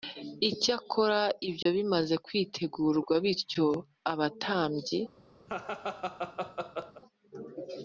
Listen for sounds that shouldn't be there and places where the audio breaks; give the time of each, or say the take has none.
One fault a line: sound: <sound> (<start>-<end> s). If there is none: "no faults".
sound: dropout (1.6-1.7 s)
sound: laugh (5.5-7.0 s)